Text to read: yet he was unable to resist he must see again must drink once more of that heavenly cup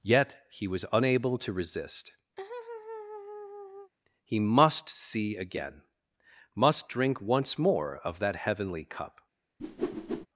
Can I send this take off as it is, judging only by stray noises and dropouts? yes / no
no